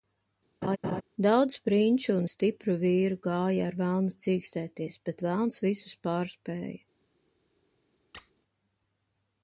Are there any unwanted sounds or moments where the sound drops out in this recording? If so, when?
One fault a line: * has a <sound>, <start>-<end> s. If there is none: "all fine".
* has a laugh, 0.6-1.0 s
* has a squeak, 8.1-8.3 s